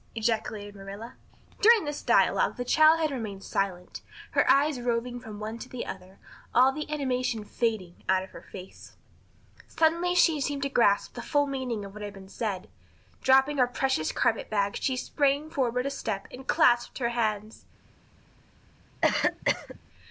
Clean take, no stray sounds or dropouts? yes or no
no